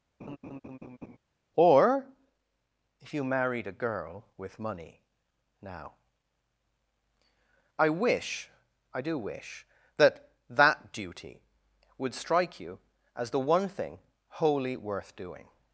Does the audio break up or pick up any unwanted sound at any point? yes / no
yes